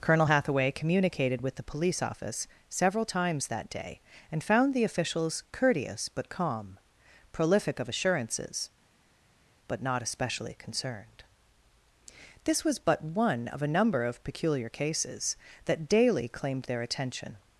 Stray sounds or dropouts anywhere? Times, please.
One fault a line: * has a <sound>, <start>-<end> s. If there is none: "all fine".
all fine